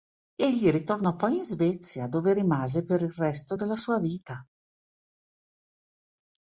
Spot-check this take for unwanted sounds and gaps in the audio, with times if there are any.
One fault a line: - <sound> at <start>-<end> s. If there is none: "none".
none